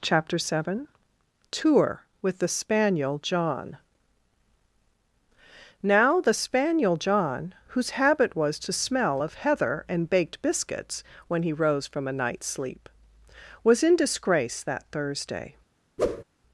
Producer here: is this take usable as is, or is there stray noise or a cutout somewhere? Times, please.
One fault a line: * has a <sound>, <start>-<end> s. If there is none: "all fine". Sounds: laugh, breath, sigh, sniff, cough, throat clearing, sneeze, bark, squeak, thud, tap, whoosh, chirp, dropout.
* has a whoosh, 16.0-16.2 s